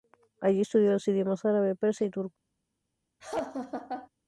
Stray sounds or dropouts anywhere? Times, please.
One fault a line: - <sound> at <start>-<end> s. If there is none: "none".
- laugh at 3.2-4.1 s